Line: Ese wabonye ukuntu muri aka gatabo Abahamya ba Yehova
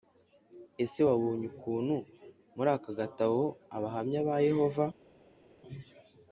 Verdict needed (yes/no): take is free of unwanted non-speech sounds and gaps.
yes